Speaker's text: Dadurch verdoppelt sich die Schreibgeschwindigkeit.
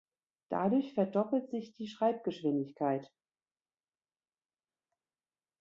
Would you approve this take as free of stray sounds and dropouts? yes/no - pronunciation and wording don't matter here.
yes